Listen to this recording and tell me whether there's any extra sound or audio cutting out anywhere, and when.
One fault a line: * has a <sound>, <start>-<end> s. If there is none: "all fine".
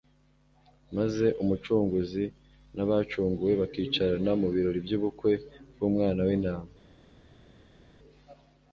all fine